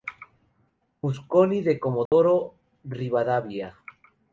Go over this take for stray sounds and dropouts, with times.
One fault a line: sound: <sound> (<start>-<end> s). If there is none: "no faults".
sound: dropout (2.1-2.1 s)